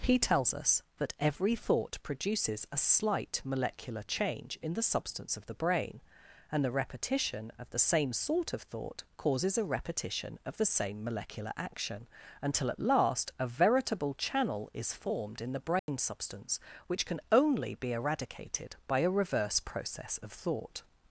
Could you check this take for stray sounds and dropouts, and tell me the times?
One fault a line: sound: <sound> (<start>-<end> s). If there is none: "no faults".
sound: dropout (15.8-15.9 s)